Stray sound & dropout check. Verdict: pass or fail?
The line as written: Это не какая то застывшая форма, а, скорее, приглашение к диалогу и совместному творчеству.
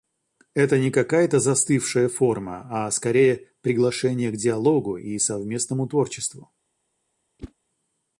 fail